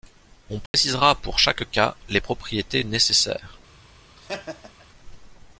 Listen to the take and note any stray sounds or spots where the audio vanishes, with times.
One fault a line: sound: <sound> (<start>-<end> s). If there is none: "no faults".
sound: dropout (0.7-0.7 s)
sound: laugh (4.2-4.9 s)